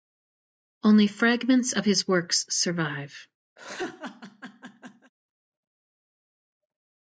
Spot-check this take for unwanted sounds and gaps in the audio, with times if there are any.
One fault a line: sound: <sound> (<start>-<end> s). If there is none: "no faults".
sound: laugh (3.6-5.1 s)